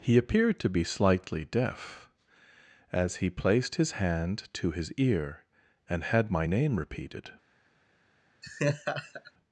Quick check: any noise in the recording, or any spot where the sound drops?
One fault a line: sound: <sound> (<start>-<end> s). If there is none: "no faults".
sound: laugh (8.4-9.3 s)